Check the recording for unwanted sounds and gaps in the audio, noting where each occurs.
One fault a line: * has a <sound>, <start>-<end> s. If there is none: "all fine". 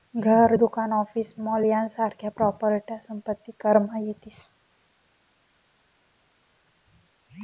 all fine